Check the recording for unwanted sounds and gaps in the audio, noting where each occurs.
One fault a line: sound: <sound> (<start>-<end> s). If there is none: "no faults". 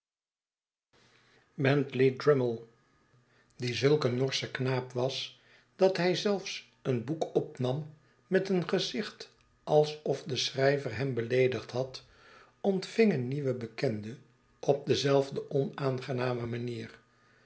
no faults